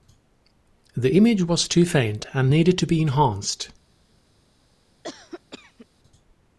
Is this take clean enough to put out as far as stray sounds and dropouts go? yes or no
no